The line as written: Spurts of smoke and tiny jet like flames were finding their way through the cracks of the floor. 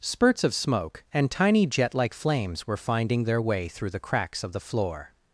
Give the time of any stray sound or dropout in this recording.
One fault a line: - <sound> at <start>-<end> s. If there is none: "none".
none